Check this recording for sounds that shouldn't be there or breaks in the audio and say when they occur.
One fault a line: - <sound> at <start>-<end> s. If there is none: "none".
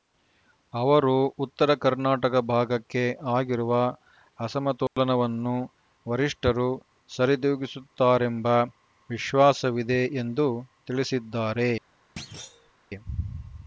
- dropout at 4.9-5.0 s
- thud at 12.2-12.7 s